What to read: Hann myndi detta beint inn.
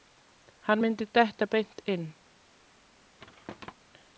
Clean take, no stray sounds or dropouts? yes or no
no